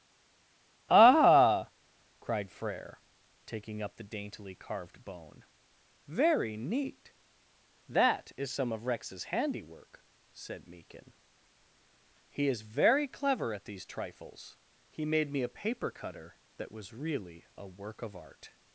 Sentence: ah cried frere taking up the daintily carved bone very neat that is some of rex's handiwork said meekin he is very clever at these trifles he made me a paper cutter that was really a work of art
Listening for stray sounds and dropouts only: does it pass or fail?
pass